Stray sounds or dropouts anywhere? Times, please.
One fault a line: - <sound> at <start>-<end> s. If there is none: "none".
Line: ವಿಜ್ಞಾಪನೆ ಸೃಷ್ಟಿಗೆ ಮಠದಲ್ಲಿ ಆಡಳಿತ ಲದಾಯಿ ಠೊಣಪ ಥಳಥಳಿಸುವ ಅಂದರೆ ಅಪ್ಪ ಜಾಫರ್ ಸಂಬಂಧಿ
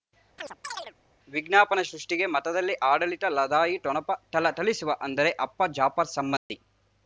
- chirp at 0.4-0.9 s
- dropout at 6.4-6.5 s